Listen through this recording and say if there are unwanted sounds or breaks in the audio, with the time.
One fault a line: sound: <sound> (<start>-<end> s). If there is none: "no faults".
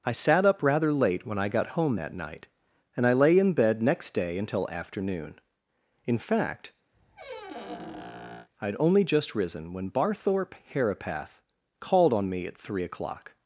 sound: squeak (6.9-8.5 s)